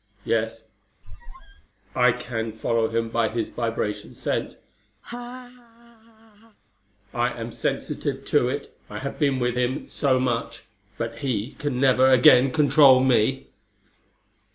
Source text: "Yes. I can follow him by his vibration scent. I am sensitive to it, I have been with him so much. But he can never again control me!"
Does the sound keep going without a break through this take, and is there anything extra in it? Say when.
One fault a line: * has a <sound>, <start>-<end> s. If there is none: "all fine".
* has a squeak, 1.0-1.7 s
* has a laugh, 5.0-6.6 s